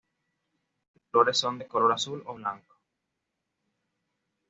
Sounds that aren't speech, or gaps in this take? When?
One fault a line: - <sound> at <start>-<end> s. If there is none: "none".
none